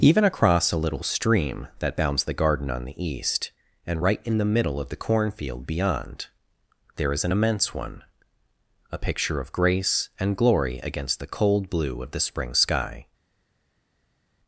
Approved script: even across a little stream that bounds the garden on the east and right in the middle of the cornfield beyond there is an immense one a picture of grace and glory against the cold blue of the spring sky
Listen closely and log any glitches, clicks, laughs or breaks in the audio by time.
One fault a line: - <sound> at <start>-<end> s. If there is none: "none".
none